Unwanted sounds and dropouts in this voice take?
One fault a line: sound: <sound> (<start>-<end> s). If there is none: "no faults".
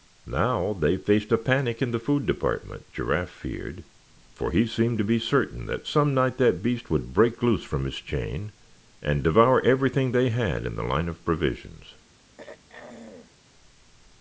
sound: throat clearing (12.4-13.3 s)